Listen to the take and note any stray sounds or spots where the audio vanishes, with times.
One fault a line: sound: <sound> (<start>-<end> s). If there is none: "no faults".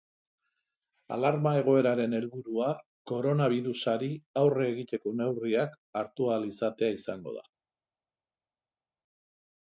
no faults